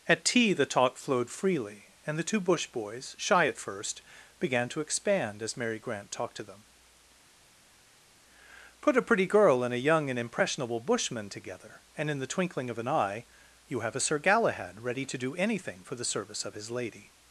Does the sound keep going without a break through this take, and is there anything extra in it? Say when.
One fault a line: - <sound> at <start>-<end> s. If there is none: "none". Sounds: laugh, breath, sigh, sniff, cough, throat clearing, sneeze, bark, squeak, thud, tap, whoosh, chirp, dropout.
none